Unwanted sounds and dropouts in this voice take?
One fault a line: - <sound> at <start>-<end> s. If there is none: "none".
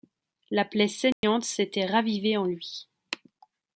- dropout at 1.1-1.2 s